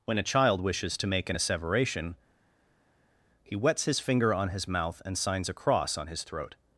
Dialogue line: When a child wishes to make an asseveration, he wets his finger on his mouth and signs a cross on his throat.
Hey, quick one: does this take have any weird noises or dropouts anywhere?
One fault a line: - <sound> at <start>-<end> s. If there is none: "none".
none